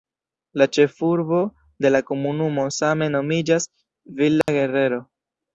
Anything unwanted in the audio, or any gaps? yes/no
yes